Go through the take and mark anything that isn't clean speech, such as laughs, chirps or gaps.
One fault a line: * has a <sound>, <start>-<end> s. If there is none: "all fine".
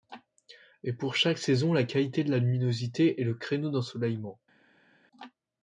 all fine